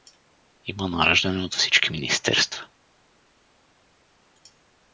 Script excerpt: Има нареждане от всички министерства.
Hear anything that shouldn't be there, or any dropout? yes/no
no